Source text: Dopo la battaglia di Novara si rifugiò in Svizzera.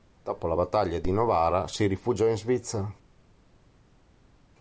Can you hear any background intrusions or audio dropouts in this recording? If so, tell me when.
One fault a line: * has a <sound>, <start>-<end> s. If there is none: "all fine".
all fine